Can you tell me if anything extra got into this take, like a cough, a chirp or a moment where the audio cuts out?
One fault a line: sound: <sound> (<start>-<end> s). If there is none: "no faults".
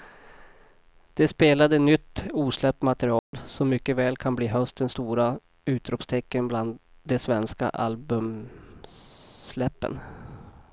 sound: dropout (3.2-3.3 s)